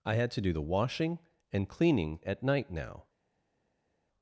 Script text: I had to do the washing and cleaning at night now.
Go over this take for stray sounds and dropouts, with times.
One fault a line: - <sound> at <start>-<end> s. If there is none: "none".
none